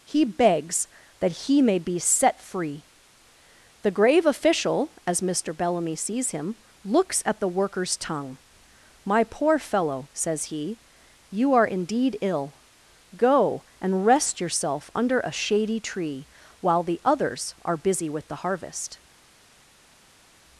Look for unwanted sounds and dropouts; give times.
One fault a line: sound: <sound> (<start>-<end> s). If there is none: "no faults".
no faults